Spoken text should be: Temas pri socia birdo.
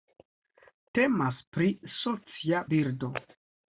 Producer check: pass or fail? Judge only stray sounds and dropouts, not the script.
pass